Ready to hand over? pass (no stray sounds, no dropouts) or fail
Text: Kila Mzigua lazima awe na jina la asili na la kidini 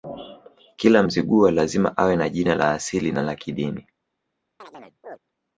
fail